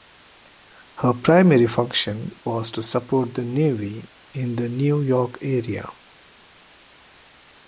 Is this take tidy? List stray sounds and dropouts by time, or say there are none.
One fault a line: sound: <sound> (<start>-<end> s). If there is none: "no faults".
no faults